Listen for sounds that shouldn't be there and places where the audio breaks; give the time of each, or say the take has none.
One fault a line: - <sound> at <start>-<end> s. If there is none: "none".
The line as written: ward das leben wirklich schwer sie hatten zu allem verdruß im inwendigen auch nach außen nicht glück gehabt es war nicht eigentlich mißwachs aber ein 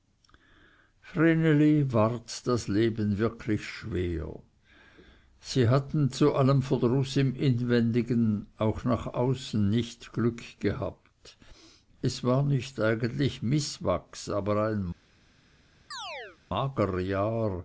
- chirp at 15.9-16.4 s